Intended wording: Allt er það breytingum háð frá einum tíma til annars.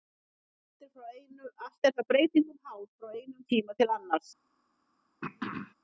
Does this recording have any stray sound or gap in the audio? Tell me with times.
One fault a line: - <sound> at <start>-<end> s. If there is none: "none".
- throat clearing at 5.2-5.7 s